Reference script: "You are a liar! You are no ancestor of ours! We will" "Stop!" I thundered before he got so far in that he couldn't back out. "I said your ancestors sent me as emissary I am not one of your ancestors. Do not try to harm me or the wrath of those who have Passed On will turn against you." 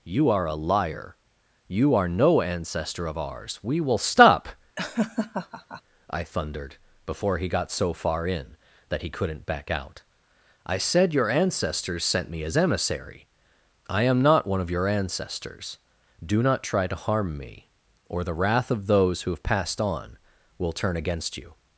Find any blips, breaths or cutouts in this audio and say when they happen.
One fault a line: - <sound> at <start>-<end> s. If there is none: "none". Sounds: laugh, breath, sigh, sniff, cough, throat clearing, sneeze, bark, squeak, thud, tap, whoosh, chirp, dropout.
- laugh at 4.8-5.8 s